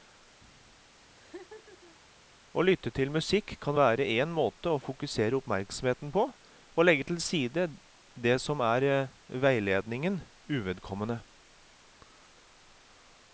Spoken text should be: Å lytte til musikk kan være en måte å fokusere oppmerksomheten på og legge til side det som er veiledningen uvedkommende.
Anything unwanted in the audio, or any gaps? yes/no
yes